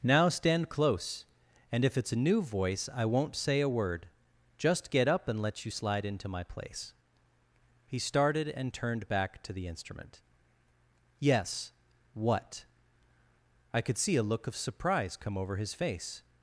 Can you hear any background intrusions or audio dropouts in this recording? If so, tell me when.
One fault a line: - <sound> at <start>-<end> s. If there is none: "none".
none